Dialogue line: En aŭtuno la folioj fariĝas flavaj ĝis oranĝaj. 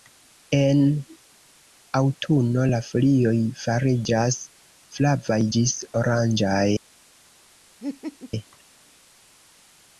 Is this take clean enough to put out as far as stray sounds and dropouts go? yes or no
no